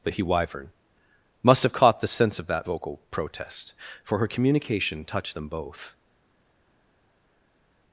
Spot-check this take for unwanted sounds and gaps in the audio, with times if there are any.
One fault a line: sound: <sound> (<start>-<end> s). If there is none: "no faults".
no faults